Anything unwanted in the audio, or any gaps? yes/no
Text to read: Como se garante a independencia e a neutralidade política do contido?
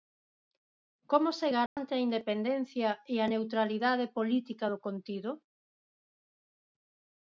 yes